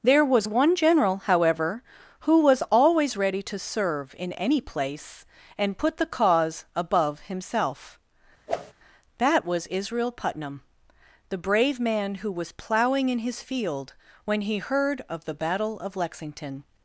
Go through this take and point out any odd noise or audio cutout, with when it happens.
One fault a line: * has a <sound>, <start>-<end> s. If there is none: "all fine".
* has a whoosh, 8.5-8.7 s